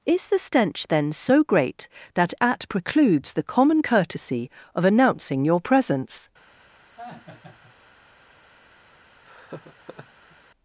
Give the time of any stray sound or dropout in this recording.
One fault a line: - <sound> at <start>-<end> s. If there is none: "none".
- laugh at 7.0-7.7 s
- laugh at 9.2-10.4 s